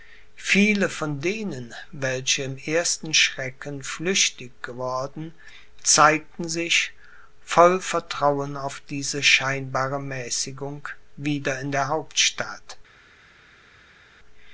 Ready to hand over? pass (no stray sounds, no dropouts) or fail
pass